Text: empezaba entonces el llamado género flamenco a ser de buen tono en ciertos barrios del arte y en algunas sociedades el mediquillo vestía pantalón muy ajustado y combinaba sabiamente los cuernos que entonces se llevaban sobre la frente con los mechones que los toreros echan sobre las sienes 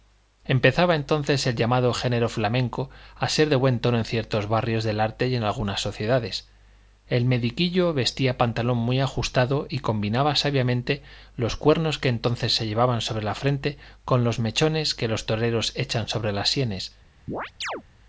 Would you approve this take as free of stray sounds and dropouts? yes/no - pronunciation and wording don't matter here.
no